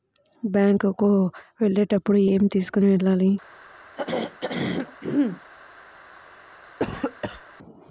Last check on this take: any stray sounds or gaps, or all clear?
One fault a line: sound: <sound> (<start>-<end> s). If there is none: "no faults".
sound: throat clearing (4.0-5.4 s)
sound: cough (6.8-7.4 s)